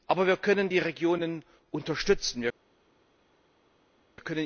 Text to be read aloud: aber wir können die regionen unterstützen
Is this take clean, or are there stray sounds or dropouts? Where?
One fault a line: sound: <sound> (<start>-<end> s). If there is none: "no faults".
no faults